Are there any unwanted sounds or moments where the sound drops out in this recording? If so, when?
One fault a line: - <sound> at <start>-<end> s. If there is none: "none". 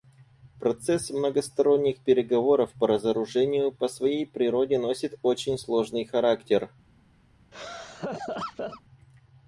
- laugh at 7.5-8.8 s